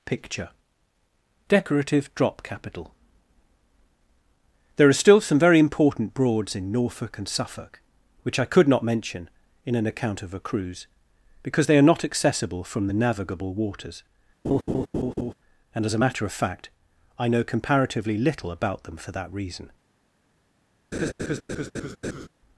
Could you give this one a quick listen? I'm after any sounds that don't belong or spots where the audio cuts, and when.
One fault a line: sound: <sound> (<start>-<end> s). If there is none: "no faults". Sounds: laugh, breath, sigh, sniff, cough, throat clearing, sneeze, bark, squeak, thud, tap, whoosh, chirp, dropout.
sound: laugh (14.4-15.3 s)
sound: laugh (20.9-22.3 s)